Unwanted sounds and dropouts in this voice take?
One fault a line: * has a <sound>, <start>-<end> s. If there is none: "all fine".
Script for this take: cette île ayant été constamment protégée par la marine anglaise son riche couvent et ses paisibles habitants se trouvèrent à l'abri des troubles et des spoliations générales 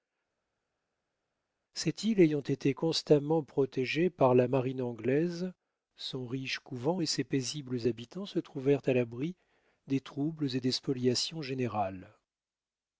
all fine